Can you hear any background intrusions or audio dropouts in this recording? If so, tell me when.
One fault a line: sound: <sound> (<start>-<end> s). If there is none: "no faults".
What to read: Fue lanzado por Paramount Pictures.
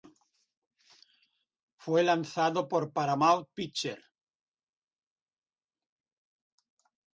no faults